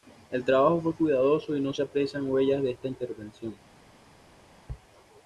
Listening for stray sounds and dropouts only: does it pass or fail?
pass